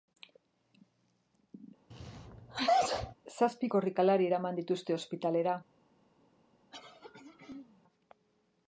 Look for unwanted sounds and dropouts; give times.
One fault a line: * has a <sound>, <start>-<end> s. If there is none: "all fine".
* has a sneeze, 1.9-3.2 s
* has a throat clearing, 6.7-7.8 s